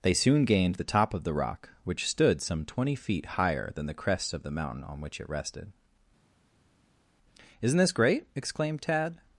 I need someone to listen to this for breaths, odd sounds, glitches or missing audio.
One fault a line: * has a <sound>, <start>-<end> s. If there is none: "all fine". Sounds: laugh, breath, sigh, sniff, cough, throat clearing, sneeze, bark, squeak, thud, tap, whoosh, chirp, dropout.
all fine